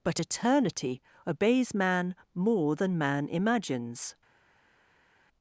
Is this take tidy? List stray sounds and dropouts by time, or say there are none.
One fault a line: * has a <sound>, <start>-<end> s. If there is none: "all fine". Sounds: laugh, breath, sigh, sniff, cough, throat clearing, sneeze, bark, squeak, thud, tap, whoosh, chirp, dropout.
all fine